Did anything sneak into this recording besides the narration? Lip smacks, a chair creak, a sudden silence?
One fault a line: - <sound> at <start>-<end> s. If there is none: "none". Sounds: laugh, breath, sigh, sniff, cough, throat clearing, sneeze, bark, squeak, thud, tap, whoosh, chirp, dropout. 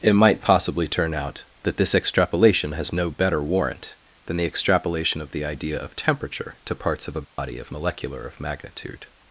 - dropout at 7.2-7.4 s